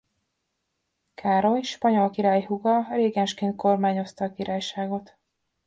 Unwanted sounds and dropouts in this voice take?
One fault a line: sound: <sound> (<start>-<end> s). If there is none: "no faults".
no faults